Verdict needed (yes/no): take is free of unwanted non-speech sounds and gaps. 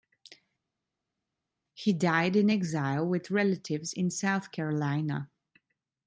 yes